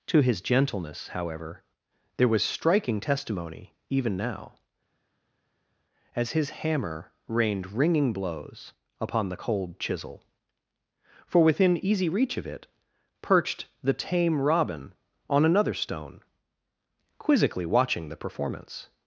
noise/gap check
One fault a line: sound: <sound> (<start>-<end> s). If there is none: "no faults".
no faults